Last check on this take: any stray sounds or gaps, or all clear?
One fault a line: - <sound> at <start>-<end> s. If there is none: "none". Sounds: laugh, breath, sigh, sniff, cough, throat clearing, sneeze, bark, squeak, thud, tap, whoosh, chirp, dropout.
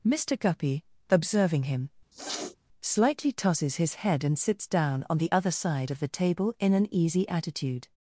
- sniff at 2.1-2.6 s